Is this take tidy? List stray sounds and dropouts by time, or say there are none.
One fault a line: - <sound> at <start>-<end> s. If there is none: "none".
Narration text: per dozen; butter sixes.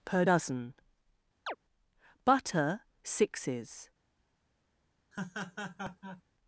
- chirp at 1.5-1.6 s
- laugh at 5.1-6.2 s